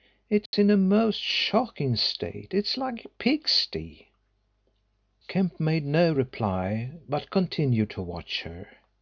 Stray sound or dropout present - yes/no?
yes